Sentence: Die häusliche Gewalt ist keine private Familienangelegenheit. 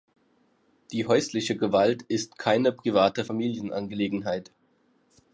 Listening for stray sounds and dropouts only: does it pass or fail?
pass